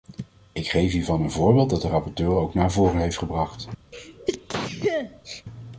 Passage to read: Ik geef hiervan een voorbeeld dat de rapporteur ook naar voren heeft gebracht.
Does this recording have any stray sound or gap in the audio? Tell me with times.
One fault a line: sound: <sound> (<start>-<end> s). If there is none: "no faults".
sound: sneeze (3.9-5.4 s)